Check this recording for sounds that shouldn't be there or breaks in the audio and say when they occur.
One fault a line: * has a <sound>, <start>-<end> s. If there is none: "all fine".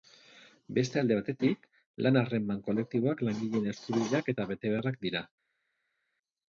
all fine